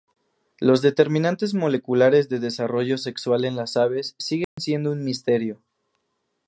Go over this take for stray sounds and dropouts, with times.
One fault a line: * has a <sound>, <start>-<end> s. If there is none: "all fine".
* has a dropout, 4.4-4.6 s